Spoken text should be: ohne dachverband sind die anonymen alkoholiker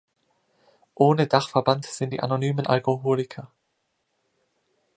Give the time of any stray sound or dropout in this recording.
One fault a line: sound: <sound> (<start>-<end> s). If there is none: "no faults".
no faults